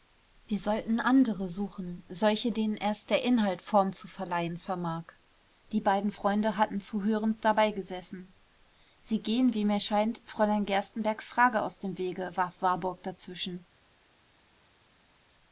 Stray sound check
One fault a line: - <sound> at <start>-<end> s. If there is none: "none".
none